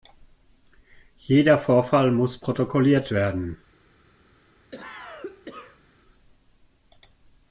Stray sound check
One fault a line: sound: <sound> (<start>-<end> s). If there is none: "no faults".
sound: cough (4.7-5.8 s)